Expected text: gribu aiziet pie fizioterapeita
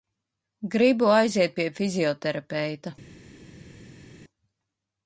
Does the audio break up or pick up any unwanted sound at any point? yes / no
no